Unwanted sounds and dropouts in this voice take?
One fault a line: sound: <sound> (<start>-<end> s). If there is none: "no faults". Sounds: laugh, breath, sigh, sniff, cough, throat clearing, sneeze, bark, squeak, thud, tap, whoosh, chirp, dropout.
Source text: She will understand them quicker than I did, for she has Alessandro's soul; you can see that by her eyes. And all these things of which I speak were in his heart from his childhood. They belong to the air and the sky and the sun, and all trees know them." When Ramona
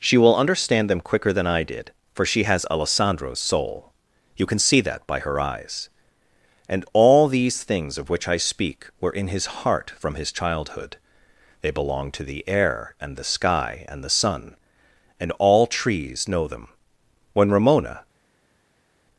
no faults